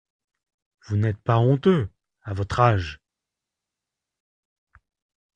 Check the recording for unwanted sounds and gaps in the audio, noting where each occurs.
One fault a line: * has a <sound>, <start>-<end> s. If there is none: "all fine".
all fine